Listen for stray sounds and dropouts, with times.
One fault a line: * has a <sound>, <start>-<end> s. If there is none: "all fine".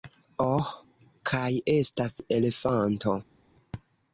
all fine